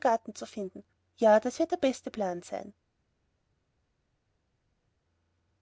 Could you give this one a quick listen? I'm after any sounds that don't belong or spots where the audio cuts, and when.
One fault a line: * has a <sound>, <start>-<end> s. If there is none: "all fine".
all fine